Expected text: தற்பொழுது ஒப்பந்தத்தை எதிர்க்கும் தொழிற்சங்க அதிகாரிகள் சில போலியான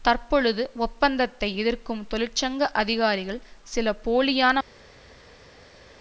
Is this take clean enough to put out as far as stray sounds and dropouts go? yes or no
yes